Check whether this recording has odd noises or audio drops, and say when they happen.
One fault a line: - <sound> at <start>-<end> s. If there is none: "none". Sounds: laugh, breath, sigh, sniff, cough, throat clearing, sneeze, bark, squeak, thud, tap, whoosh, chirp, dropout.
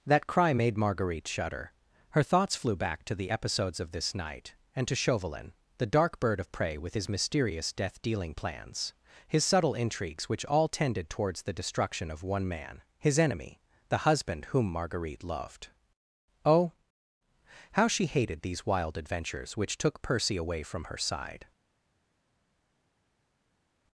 none